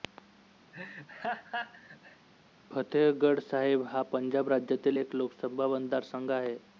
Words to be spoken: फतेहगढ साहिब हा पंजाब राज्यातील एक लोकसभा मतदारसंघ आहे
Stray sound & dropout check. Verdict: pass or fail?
fail